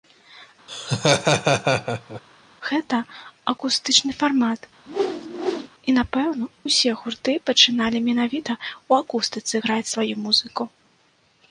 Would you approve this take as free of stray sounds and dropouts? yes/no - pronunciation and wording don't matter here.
no